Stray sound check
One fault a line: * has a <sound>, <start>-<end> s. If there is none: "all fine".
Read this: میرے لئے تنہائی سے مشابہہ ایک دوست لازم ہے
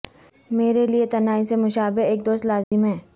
* has a dropout, 2.6-2.7 s